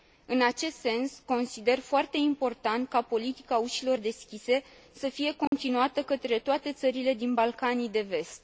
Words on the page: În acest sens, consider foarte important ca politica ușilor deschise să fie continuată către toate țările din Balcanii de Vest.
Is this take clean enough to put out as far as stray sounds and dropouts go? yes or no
no